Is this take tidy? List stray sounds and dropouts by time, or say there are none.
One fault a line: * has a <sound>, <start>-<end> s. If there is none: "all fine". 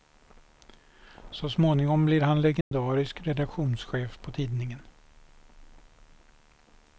* has a dropout, 2.6-2.7 s